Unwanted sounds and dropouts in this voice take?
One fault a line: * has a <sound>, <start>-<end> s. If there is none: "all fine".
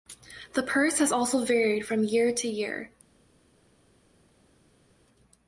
all fine